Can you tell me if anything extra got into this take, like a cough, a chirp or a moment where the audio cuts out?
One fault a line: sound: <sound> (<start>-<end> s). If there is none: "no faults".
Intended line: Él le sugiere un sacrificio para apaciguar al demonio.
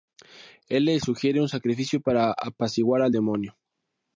no faults